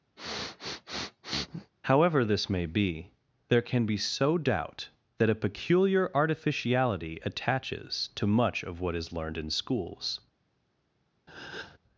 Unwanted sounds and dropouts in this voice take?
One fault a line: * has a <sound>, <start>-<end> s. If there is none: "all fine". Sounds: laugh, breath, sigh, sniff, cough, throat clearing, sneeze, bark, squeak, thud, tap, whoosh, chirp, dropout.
* has a sniff, 0.2-1.7 s
* has a breath, 11.3-11.8 s